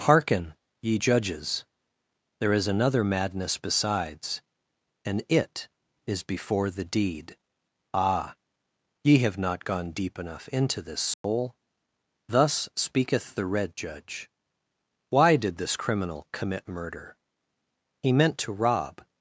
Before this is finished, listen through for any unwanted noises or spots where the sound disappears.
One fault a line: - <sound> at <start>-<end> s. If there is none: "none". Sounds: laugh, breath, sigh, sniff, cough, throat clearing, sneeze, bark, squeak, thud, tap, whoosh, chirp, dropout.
- dropout at 11.1-11.2 s